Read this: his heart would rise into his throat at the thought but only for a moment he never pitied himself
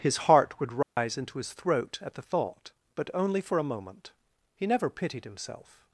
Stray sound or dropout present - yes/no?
yes